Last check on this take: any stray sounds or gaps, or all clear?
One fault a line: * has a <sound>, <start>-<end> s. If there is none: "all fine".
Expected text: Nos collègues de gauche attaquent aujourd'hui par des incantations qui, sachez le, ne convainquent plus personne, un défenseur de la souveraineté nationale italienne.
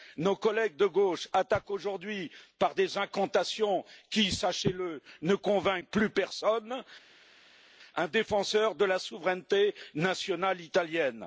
all fine